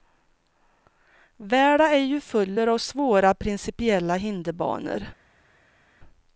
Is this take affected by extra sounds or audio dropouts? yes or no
no